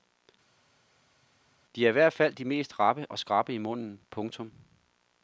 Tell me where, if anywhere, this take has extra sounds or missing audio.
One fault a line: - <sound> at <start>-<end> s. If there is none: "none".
none